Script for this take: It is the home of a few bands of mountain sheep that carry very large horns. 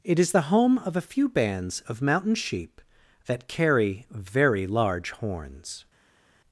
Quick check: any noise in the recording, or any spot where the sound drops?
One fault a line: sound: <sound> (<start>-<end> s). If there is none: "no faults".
no faults